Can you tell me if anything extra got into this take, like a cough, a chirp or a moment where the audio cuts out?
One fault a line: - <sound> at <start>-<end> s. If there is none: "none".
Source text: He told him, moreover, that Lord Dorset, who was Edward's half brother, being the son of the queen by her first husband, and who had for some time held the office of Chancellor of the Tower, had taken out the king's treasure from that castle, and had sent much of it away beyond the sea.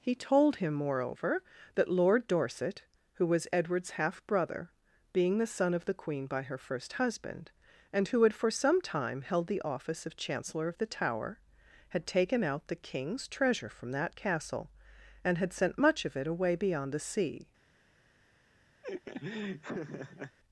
- laugh at 18.8-20.4 s